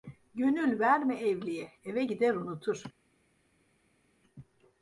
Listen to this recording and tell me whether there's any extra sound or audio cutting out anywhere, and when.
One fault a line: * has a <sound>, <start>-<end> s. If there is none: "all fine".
all fine